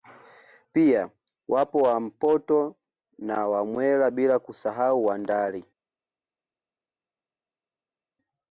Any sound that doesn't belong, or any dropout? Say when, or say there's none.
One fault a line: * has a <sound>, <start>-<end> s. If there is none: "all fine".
all fine